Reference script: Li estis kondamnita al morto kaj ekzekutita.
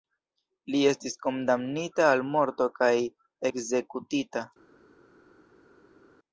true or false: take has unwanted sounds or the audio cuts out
false